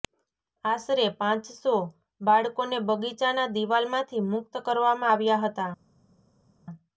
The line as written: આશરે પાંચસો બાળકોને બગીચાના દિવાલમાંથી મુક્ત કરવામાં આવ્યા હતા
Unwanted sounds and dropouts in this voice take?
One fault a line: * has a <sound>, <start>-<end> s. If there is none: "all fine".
all fine